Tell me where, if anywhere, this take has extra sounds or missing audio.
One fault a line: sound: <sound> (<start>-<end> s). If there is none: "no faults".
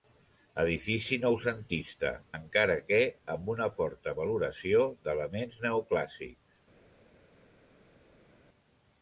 no faults